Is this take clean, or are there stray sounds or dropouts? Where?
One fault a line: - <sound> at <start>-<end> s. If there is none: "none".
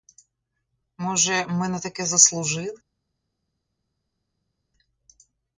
none